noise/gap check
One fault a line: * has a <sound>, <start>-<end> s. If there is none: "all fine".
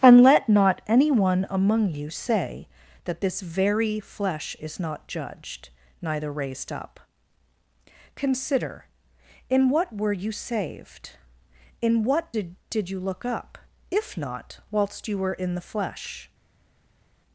all fine